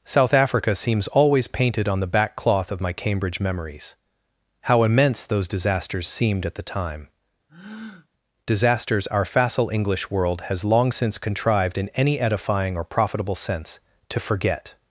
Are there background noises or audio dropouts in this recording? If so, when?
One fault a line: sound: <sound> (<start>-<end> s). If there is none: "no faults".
sound: breath (7.5-8.1 s)